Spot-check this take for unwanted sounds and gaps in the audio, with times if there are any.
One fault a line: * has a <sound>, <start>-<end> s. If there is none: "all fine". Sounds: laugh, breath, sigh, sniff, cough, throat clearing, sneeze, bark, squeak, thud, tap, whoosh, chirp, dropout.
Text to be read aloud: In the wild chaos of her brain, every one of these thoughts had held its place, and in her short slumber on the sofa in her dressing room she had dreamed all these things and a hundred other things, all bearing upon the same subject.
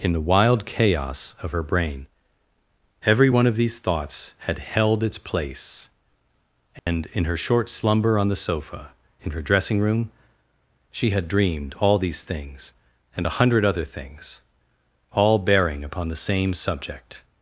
* has a dropout, 6.8-6.9 s